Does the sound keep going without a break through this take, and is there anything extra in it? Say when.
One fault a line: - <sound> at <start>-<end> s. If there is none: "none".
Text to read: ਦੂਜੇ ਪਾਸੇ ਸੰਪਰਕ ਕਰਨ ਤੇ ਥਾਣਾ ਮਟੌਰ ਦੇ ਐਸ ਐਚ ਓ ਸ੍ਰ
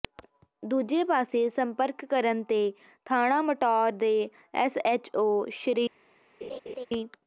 - laugh at 6.4-6.9 s